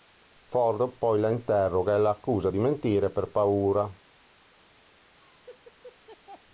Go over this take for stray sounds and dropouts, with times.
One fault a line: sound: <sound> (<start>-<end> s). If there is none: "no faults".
sound: laugh (5.2-6.4 s)